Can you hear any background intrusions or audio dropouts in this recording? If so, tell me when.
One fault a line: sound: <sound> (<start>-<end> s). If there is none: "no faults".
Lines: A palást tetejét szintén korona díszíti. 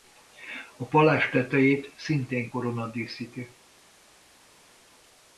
no faults